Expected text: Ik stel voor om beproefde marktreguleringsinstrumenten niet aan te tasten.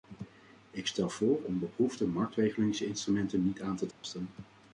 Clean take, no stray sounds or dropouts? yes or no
no